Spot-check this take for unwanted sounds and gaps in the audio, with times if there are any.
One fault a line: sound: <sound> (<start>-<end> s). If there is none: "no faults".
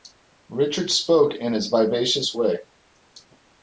no faults